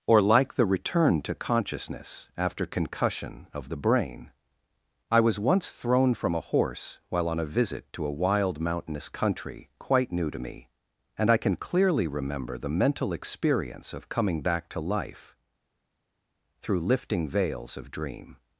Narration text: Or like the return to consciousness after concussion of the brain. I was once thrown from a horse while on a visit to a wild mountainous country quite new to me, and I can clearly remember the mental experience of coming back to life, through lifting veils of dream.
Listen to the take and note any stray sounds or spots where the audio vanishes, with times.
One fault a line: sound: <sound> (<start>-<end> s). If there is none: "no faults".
no faults